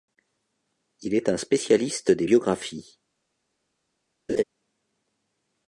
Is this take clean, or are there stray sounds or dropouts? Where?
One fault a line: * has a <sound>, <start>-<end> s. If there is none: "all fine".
* has a laugh, 4.3-4.4 s